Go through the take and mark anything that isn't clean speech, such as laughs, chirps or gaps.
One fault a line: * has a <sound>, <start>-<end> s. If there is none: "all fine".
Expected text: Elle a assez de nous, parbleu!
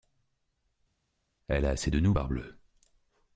all fine